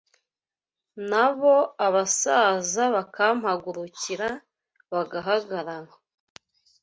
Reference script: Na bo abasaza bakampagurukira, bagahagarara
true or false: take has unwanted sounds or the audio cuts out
false